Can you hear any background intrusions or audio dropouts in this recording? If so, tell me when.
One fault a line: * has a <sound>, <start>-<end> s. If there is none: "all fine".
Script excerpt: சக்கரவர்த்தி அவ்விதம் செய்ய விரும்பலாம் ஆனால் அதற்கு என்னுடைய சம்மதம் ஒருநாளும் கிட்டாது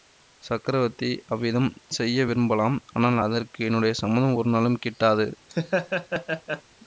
* has a laugh, 5.5-6.6 s